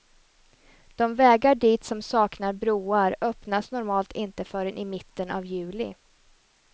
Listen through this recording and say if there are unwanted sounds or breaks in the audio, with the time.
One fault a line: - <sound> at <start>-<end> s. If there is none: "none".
none